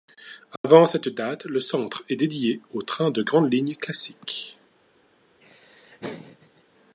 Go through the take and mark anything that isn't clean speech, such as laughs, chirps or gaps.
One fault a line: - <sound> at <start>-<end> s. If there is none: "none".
- dropout at 0.6-0.6 s
- laugh at 5.4-6.6 s